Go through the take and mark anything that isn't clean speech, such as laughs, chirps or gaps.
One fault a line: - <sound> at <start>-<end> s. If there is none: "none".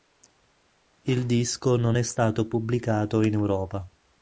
none